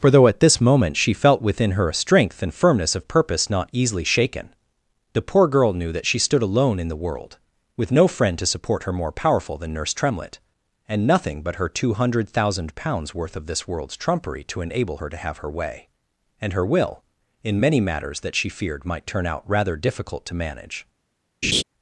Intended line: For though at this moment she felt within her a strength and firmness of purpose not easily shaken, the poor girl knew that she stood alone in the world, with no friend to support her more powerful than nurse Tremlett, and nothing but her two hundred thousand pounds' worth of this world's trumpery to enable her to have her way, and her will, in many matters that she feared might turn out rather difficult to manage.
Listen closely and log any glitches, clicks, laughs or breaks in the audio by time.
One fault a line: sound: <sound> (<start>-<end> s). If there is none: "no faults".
sound: laugh (21.4-21.6 s)